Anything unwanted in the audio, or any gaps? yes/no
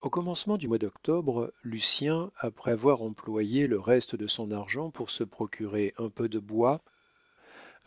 no